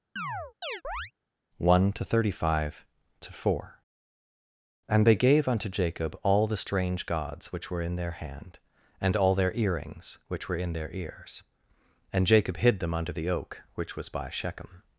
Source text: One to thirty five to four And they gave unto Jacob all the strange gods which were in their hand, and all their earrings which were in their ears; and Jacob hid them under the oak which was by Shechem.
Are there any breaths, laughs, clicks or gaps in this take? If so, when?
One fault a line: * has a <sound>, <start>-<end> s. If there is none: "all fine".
* has a chirp, 0.2-1.1 s